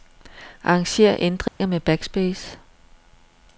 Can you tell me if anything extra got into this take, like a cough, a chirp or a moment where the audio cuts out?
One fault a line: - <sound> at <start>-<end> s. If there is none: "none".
- dropout at 1.5-1.6 s